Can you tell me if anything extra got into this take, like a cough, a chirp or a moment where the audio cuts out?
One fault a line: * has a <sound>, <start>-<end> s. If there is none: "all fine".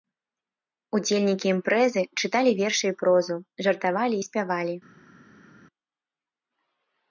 all fine